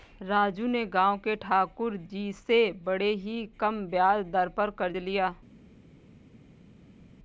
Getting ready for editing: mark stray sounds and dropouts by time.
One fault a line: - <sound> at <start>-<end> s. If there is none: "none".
none